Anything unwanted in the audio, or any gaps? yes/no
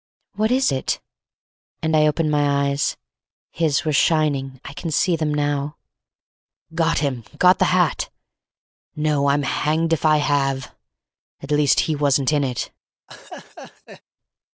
yes